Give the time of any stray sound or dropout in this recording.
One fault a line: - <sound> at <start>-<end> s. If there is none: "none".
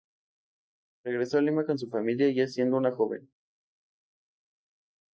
none